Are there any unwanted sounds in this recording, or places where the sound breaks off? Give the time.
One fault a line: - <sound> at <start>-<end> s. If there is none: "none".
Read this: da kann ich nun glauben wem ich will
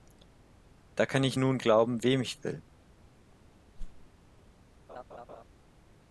- whoosh at 3.8-4.1 s
- laugh at 4.9-5.4 s